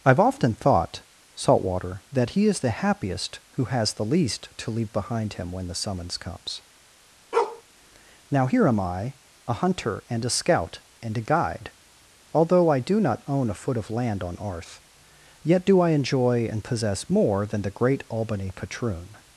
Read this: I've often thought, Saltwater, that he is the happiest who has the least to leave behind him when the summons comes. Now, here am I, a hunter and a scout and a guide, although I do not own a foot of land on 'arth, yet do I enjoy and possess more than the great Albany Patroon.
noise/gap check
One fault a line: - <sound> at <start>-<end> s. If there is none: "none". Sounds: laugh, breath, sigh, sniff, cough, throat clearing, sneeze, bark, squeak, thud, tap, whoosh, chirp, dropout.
- bark at 7.3-7.6 s